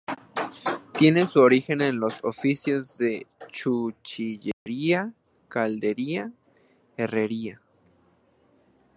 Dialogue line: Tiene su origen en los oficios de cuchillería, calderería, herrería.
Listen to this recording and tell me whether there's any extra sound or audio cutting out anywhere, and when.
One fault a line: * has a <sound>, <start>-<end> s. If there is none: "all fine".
* has a dropout, 4.5-4.7 s